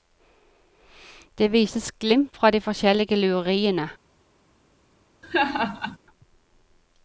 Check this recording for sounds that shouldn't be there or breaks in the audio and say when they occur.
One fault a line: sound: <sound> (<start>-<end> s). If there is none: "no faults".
sound: laugh (5.2-6.0 s)